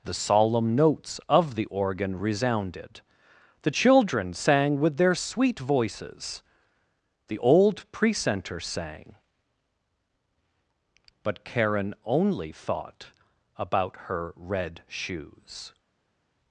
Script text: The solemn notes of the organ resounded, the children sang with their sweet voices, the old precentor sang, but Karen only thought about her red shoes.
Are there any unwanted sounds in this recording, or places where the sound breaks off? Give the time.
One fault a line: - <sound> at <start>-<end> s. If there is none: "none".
none